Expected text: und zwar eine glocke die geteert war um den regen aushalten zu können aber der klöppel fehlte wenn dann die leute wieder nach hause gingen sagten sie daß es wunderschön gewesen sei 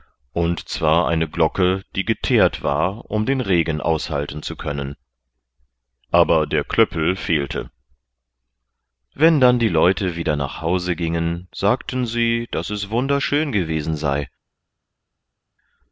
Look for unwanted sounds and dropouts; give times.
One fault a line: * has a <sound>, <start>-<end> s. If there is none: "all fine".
all fine